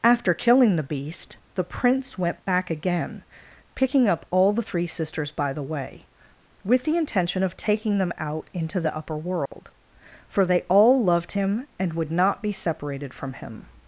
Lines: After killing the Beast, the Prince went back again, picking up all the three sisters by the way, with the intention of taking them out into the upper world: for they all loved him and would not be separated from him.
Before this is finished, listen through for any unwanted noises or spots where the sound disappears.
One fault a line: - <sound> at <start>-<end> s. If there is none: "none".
- dropout at 9.5-9.5 s